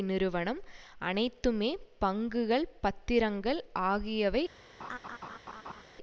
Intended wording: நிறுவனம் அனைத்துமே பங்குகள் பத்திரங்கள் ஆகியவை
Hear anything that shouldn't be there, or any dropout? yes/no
yes